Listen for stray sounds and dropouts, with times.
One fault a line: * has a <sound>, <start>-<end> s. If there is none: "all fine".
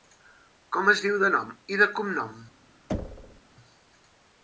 * has a thud, 2.9-3.4 s